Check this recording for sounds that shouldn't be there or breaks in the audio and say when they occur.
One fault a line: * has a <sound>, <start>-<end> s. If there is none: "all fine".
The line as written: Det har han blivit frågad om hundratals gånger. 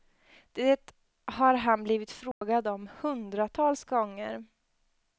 * has a dropout, 2.3-2.4 s